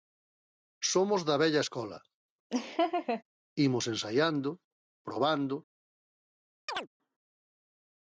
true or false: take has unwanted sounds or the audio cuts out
true